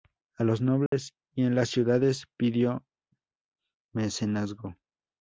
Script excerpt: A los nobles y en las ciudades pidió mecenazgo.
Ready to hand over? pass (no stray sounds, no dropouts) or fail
fail